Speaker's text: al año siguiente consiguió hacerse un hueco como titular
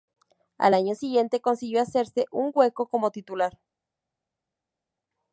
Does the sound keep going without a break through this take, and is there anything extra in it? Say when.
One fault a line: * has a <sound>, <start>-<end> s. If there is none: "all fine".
all fine